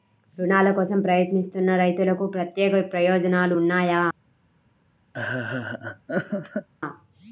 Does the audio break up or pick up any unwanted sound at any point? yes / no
yes